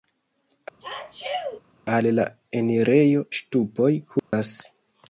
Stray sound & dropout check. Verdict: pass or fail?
fail